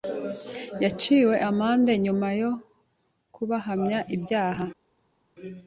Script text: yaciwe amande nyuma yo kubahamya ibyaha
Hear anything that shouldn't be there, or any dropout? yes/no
no